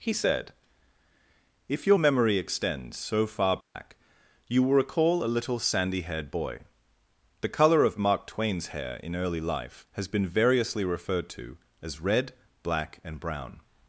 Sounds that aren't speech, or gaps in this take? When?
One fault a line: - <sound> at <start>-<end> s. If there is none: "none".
- dropout at 3.6-3.7 s